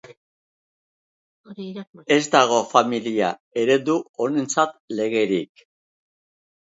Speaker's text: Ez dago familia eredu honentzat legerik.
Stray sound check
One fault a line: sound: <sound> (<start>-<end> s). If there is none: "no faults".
no faults